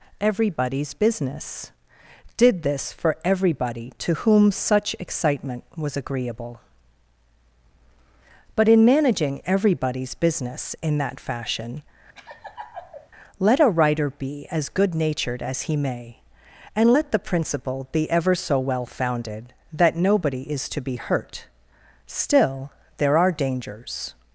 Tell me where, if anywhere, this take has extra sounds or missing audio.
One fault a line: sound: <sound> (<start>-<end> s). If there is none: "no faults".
sound: laugh (12.1-13.1 s)